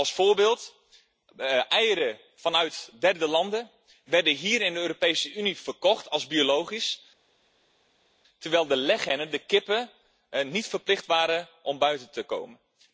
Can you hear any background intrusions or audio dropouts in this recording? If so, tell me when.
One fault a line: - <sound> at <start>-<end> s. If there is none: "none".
none